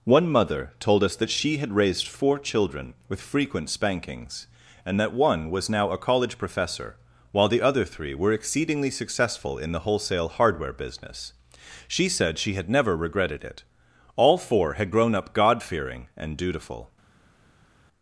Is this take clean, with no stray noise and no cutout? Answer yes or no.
yes